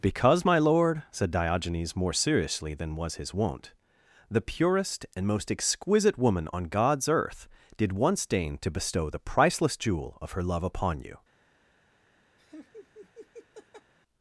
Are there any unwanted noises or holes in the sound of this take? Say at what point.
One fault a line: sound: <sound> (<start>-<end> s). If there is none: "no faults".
sound: laugh (12.4-13.9 s)